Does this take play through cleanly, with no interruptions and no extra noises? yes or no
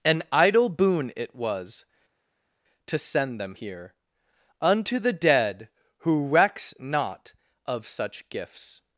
yes